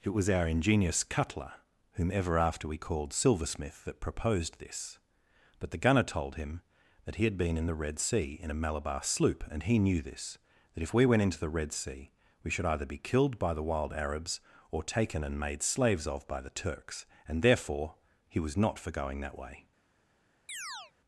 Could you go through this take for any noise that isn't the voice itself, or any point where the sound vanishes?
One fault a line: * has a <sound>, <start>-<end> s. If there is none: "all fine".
* has a chirp, 20.5-20.9 s